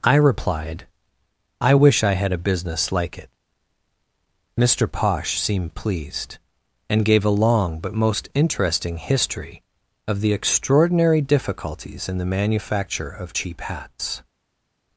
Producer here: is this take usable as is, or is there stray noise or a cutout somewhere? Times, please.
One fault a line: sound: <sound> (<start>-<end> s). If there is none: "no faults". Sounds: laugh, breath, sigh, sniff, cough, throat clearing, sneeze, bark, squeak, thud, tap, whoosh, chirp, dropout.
no faults